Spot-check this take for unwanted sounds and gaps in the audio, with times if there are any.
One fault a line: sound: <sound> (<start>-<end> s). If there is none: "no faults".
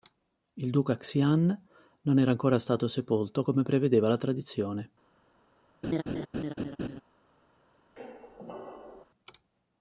sound: laugh (5.8-7.0 s)
sound: squeak (8.0-9.1 s)